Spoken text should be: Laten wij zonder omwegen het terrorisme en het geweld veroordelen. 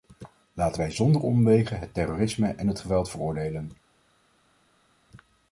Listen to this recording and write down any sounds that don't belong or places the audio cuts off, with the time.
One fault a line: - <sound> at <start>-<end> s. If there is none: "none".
none